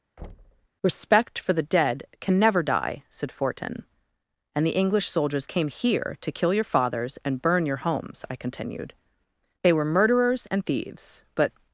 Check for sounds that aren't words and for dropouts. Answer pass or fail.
fail